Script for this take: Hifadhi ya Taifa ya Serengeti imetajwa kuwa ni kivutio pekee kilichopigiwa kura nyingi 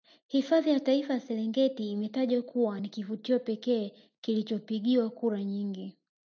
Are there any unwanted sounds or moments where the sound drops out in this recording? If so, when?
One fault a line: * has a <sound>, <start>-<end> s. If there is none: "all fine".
all fine